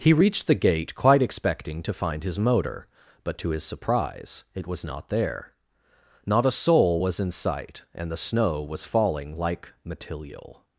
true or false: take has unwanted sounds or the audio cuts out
false